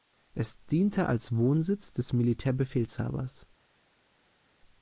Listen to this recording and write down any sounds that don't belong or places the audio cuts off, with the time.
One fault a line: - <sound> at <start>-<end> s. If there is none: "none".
none